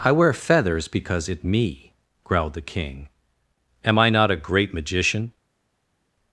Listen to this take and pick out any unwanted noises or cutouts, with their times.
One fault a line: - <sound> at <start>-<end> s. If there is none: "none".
none